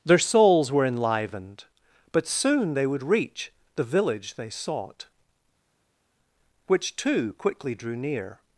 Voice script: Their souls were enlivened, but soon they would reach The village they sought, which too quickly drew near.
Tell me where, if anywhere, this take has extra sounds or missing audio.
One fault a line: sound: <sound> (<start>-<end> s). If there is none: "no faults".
no faults